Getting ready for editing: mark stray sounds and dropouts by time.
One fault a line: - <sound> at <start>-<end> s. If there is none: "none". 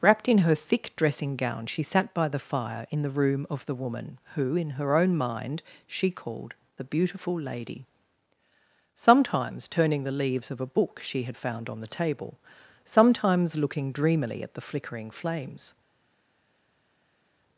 none